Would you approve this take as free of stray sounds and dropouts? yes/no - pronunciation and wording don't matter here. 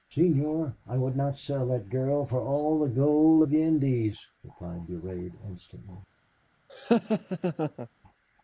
no